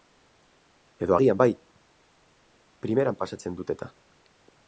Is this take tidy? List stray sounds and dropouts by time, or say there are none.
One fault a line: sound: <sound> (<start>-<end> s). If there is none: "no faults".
no faults